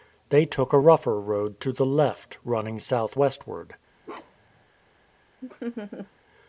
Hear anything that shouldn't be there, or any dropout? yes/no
yes